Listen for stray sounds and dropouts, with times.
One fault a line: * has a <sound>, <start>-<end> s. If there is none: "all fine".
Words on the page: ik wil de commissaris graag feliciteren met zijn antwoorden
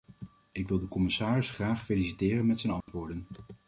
* has a dropout, 2.8-2.9 s